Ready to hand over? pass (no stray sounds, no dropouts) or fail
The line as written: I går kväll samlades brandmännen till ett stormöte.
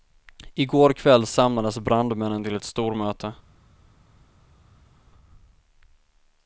pass